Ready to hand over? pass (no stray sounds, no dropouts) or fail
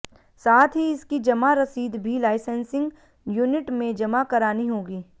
pass